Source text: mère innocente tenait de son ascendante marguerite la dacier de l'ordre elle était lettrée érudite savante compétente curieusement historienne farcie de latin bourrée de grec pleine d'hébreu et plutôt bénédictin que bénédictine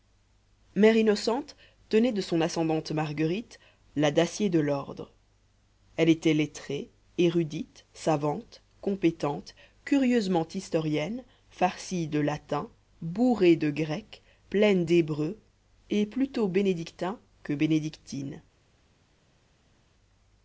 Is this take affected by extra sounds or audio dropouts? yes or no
no